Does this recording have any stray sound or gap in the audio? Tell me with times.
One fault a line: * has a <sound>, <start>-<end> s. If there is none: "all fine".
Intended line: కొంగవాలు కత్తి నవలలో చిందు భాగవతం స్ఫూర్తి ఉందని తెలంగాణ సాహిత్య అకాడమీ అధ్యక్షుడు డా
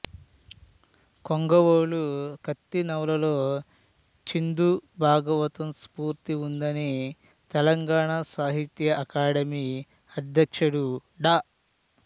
all fine